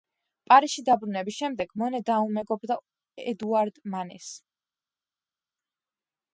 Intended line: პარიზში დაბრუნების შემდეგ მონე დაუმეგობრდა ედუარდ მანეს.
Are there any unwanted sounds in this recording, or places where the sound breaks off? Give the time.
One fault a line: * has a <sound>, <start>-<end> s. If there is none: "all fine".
all fine